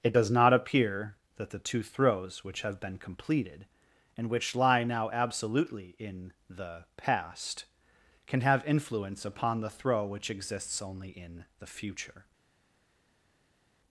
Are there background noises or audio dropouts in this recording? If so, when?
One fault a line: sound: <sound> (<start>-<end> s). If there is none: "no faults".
no faults